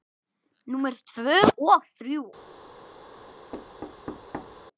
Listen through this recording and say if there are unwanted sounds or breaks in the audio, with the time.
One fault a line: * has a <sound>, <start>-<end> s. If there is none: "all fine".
* has a thud, 3.5-4.6 s